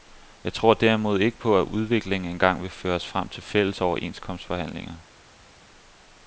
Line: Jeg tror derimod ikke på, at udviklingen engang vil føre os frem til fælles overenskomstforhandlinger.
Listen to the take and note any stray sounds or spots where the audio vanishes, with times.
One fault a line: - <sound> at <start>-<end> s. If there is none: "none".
none